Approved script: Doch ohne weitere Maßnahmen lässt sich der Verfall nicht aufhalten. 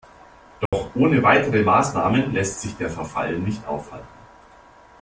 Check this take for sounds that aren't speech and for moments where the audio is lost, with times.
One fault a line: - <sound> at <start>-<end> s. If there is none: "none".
- dropout at 0.7-0.7 s